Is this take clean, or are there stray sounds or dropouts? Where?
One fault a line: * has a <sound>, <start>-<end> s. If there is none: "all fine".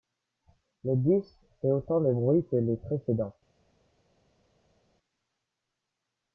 all fine